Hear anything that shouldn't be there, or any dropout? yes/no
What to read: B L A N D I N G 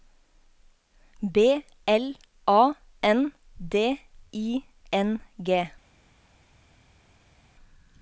no